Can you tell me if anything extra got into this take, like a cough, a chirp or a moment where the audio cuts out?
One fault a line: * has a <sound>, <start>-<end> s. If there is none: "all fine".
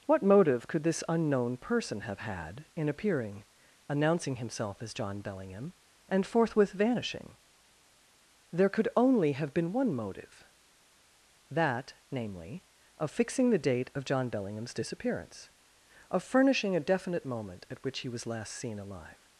all fine